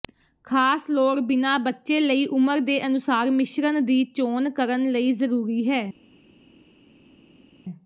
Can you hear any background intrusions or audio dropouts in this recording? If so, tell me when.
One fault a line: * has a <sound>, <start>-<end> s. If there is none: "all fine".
all fine